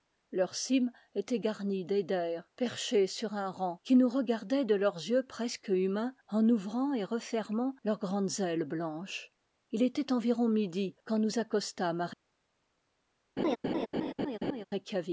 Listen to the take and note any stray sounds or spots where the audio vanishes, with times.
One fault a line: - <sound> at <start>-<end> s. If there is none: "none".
- laugh at 13.4-14.7 s